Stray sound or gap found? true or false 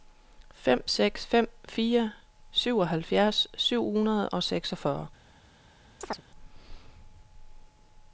true